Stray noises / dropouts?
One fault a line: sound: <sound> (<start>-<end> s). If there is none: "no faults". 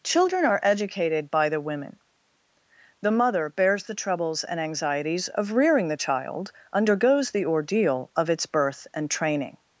no faults